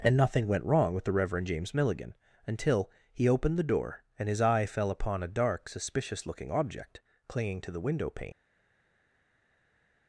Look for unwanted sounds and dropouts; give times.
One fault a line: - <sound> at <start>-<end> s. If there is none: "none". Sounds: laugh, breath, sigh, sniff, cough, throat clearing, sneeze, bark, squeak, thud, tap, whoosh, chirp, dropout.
none